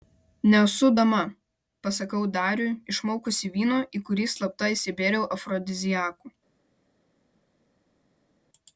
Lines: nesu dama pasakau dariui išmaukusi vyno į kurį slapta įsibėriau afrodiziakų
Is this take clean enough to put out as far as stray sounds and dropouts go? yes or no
yes